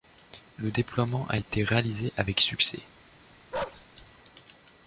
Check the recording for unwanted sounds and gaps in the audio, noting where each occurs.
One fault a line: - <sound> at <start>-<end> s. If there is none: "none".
- bark at 3.5-3.9 s